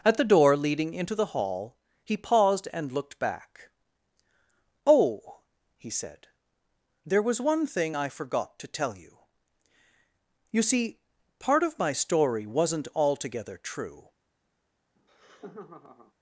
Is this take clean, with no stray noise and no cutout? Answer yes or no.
no